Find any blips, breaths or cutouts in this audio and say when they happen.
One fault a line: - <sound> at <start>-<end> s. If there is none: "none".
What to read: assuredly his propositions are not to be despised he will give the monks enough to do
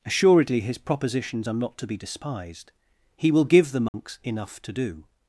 - dropout at 3.9-3.9 s